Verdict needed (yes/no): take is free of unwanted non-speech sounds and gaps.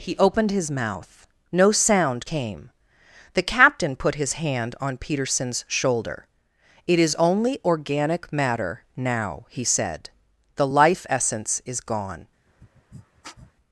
no